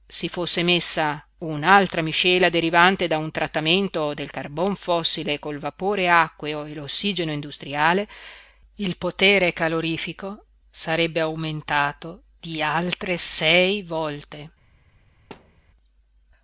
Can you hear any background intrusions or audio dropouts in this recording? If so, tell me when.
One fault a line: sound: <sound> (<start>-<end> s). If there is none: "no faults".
sound: thud (15.3-15.7 s)